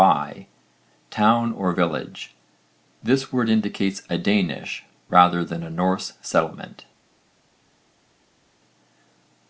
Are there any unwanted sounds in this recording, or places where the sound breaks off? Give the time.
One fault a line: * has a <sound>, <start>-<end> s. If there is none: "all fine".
all fine